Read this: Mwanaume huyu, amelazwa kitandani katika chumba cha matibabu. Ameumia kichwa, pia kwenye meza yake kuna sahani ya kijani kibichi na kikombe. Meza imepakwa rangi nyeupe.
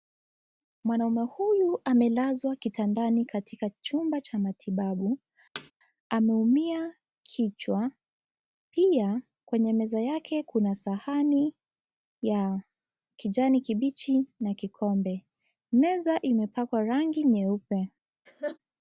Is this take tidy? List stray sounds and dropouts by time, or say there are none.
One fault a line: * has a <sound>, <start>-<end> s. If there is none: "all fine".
* has a thud, 5.5-5.7 s
* has a laugh, 18.3-18.6 s